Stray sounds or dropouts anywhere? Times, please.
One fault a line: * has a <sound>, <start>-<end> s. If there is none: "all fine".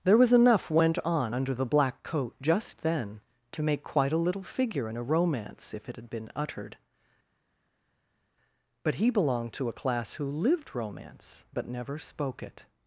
all fine